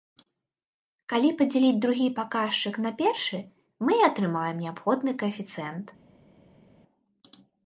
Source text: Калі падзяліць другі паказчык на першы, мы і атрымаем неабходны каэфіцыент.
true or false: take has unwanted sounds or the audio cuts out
false